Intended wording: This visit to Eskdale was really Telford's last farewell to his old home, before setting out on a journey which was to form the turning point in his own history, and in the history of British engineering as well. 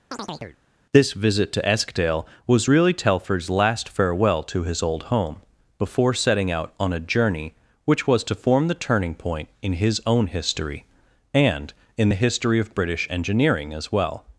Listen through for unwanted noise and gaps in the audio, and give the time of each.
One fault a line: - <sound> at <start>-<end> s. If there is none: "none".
- chirp at 0.1-0.6 s